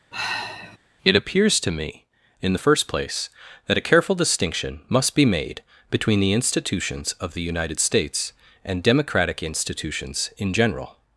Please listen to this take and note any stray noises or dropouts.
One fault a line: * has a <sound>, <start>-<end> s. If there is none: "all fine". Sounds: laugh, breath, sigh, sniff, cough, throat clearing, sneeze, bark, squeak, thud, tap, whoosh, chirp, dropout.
* has a sigh, 0.1-0.8 s